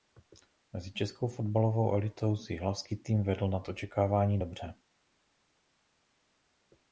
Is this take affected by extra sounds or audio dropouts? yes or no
no